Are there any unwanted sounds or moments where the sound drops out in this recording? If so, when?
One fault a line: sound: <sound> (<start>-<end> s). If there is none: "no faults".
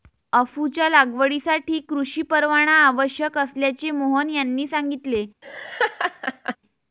sound: laugh (5.4-6.6 s)